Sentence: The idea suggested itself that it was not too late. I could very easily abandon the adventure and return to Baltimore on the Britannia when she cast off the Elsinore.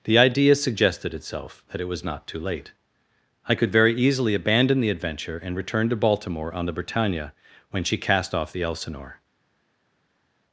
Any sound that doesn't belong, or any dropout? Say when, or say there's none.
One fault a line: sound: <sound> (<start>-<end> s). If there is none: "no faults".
no faults